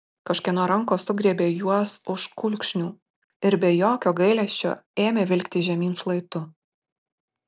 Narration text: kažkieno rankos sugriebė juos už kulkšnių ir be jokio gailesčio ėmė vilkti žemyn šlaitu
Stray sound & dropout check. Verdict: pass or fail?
pass